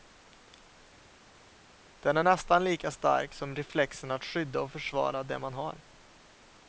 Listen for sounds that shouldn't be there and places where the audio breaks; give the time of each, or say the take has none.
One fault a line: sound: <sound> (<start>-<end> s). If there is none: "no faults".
no faults